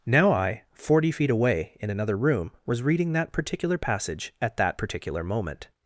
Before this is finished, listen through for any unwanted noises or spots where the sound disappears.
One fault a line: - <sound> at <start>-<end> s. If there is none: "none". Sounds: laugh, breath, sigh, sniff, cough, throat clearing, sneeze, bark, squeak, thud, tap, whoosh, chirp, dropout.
none